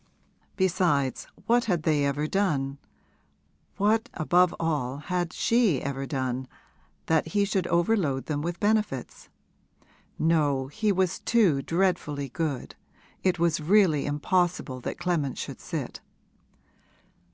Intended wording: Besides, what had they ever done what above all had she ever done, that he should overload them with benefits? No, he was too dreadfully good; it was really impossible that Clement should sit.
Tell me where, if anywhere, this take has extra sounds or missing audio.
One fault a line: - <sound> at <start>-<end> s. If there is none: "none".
none